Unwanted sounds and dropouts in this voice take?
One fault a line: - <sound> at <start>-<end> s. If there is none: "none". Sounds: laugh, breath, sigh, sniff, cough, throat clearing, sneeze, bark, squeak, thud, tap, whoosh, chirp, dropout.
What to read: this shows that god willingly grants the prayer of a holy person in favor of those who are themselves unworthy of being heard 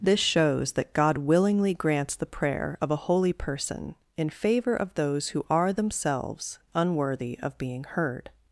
none